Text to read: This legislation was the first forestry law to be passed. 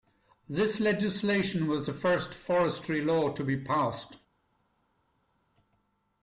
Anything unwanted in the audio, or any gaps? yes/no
no